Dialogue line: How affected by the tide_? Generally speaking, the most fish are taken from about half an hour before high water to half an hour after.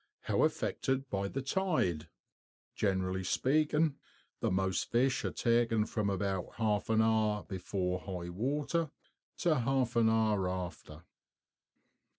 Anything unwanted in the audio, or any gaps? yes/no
no